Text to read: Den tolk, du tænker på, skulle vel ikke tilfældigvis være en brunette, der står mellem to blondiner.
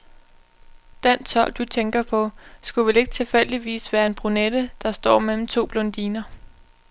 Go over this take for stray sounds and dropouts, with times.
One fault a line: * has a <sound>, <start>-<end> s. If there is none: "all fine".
all fine